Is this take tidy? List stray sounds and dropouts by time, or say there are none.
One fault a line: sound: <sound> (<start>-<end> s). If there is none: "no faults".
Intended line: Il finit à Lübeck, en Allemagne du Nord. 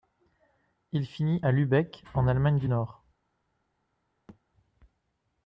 sound: thud (4.3-4.4 s)